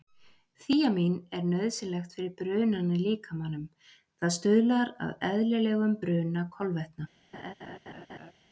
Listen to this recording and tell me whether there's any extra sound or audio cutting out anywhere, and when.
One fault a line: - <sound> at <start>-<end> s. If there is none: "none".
- laugh at 7.3-8.3 s